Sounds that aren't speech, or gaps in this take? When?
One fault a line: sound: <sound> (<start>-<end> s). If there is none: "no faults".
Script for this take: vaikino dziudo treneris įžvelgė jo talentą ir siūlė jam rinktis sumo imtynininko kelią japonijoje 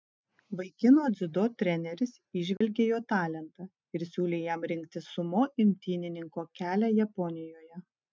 sound: dropout (2.6-2.6 s)